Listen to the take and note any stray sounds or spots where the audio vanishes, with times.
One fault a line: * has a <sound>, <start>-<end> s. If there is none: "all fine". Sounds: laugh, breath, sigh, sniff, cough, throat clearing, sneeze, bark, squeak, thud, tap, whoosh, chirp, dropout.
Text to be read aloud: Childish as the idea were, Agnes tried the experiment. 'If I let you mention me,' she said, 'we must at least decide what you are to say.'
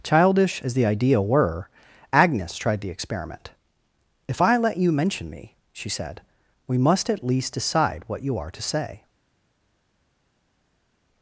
all fine